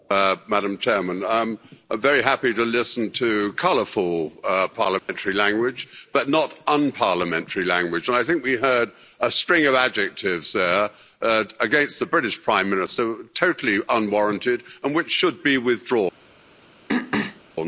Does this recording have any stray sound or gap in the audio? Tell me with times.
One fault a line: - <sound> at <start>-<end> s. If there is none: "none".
- dropout at 5.0-5.1 s
- throat clearing at 16.9-17.4 s